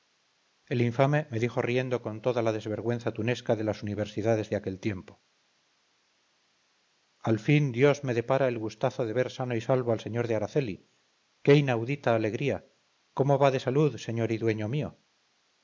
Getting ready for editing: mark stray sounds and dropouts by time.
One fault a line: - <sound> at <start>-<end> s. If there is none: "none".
none